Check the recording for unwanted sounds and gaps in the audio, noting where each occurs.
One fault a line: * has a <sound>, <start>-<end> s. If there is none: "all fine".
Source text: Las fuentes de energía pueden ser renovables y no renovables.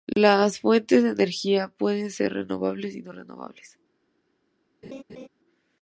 * has a laugh, 4.8-5.3 s